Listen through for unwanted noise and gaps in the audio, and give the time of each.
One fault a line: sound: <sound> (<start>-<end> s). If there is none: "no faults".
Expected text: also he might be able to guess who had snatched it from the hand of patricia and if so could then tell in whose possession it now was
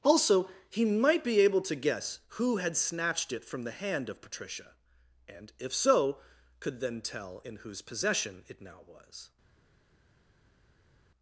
no faults